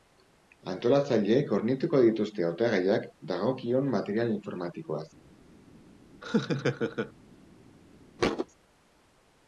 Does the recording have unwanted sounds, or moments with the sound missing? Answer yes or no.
yes